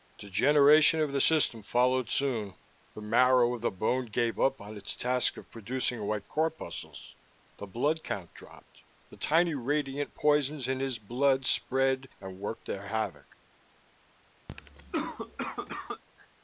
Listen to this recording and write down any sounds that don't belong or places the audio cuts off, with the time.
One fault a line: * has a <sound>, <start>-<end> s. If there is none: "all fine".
* has a cough, 14.5-16.0 s